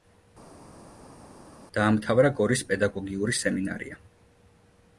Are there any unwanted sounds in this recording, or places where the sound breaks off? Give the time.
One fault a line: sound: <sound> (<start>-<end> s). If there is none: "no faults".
no faults